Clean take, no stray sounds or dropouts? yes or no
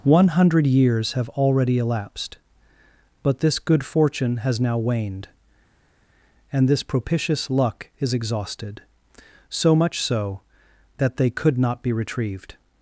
yes